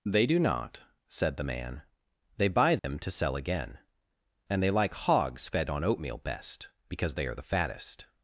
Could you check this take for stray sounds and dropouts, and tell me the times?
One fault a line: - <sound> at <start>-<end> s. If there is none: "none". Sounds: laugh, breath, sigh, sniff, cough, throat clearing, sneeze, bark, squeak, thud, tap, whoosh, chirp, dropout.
- dropout at 2.8-2.8 s